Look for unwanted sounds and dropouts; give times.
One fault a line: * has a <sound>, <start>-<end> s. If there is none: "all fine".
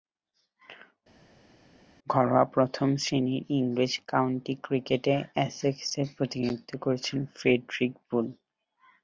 all fine